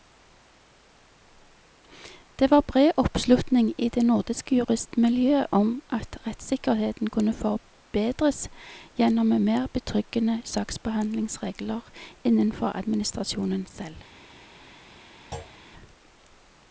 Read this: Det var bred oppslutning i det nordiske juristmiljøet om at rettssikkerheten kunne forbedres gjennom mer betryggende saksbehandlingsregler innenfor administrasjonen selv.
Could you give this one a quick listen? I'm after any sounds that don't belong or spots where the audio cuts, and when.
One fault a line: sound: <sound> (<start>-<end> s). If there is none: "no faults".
sound: thud (15.3-15.6 s)